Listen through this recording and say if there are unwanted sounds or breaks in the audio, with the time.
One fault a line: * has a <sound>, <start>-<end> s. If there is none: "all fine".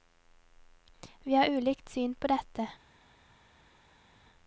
all fine